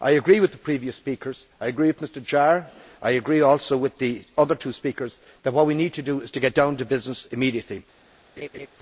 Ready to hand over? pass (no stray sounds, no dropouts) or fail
fail